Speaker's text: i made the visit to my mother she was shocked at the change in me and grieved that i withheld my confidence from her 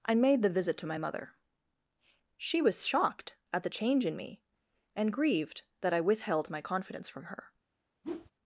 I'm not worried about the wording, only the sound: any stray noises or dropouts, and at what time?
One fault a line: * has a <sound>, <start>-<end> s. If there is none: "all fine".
* has a whoosh, 8.0-8.3 s